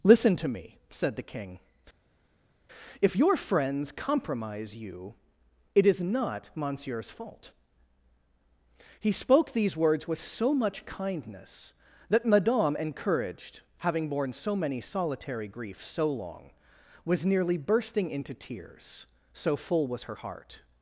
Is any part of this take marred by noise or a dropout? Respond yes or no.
no